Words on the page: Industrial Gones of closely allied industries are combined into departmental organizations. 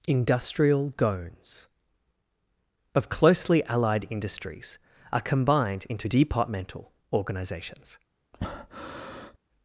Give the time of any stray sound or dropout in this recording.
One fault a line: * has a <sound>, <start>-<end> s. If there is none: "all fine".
* has a breath, 8.3-9.4 s